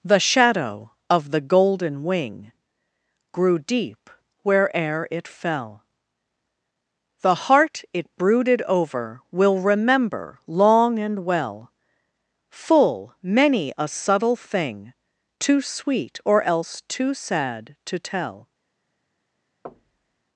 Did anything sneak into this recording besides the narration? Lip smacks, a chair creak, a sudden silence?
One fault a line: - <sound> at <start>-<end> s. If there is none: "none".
- thud at 19.6-20.2 s